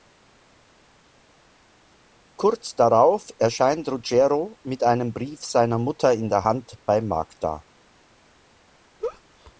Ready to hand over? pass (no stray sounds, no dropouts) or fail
fail